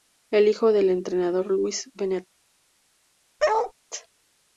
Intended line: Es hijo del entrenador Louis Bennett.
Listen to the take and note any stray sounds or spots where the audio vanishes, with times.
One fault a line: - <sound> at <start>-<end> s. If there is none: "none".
- bark at 3.4-3.7 s